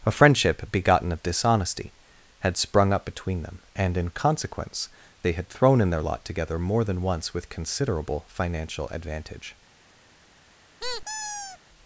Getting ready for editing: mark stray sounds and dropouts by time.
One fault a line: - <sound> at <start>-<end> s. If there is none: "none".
- squeak at 10.8-11.6 s